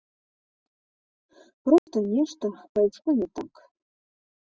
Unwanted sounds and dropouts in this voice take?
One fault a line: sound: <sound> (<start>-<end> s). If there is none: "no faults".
sound: dropout (1.8-1.9 s)